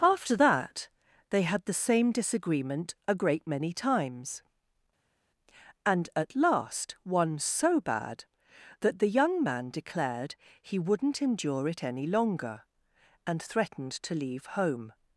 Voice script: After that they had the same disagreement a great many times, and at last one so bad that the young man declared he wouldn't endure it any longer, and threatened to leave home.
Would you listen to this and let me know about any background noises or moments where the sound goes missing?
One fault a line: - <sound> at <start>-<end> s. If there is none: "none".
none